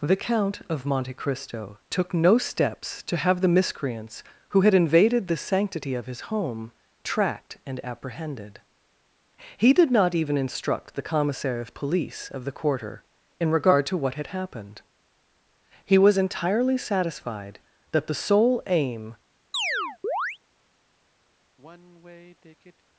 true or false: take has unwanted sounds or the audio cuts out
true